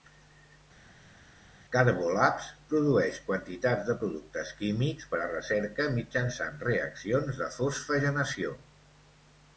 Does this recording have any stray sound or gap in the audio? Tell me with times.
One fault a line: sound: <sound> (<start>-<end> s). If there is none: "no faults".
no faults